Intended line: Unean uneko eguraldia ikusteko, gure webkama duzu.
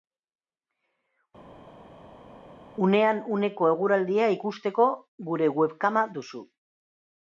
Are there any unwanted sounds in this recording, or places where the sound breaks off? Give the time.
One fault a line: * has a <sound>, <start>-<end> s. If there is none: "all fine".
all fine